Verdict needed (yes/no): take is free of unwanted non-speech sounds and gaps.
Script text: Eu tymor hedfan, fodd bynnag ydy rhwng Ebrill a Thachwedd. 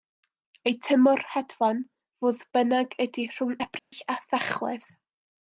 no